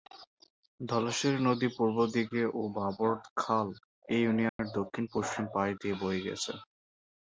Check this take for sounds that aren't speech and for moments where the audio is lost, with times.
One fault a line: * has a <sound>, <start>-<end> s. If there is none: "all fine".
* has a dropout, 4.5-4.6 s